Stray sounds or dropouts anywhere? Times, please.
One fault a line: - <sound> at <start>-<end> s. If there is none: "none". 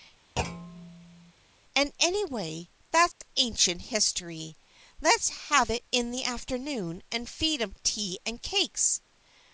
- thud at 0.4-1.3 s
- dropout at 3.1-3.2 s